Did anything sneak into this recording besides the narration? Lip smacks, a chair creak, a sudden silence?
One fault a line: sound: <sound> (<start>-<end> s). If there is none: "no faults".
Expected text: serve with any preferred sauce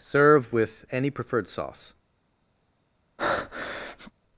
sound: breath (3.2-4.1 s)